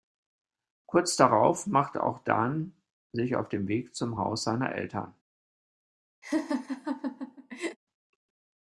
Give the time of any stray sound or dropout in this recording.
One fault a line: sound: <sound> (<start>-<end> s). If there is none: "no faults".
sound: laugh (6.2-7.8 s)